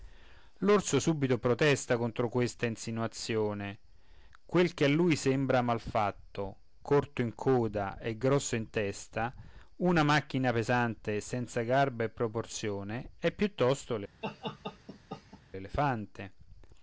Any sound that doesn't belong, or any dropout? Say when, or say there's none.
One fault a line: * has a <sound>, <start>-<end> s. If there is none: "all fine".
* has a laugh, 14.2-15.4 s